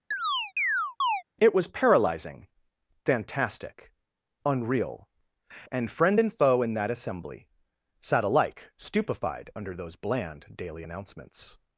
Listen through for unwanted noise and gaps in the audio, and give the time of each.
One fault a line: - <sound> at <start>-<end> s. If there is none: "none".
- chirp at 0.1-1.2 s